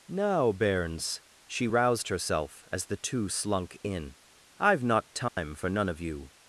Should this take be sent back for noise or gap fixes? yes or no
yes